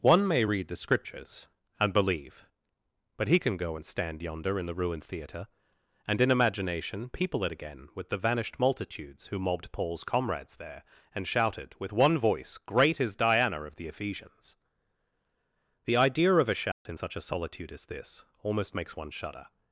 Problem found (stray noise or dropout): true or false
true